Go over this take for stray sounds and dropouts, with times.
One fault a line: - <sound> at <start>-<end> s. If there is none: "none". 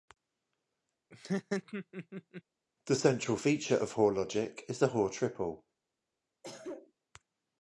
- laugh at 1.1-2.4 s
- cough at 6.4-6.9 s